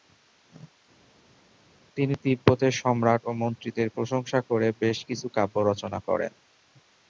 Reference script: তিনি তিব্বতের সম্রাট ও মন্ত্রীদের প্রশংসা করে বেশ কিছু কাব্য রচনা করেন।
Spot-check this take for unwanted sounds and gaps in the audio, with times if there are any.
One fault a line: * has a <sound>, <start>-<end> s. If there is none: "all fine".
all fine